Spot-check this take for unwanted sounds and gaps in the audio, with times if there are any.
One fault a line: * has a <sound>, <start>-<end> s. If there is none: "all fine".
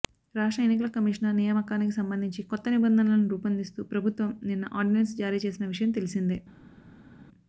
all fine